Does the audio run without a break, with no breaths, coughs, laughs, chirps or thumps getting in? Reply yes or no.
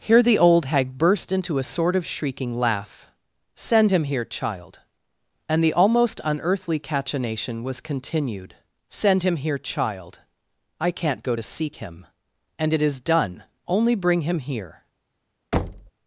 no